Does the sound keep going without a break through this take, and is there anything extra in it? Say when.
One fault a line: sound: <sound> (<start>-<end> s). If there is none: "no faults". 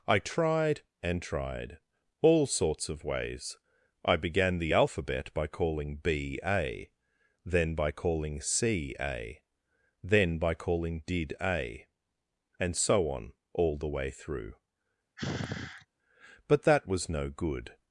sound: sigh (15.2-15.9 s)